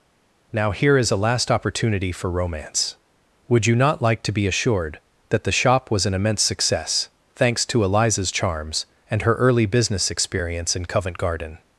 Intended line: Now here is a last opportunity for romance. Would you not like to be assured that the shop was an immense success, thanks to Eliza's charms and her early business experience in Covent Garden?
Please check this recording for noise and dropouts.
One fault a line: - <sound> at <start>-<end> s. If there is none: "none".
none